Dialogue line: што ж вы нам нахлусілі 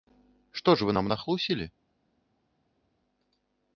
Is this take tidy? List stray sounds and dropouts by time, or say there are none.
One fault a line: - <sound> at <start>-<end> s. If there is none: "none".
none